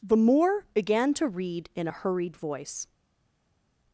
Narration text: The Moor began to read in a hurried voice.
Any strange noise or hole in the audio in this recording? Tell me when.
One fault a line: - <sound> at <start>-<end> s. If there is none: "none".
none